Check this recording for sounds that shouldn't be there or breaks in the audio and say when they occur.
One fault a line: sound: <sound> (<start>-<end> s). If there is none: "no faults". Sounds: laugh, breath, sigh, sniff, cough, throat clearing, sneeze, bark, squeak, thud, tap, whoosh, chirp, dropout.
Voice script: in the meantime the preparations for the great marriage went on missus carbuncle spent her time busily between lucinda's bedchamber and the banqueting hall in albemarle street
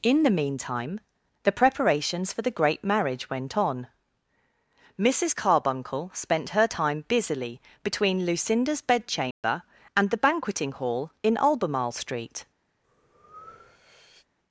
sound: dropout (9.3-9.4 s)
sound: breath (12.8-14.3 s)